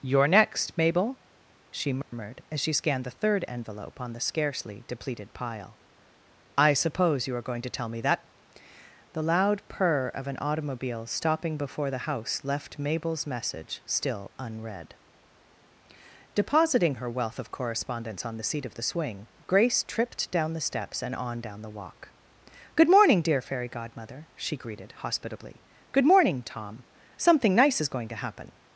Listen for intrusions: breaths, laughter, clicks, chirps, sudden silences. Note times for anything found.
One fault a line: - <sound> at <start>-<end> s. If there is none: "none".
- dropout at 2.0-2.1 s